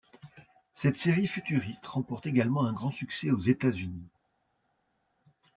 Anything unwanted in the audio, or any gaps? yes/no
no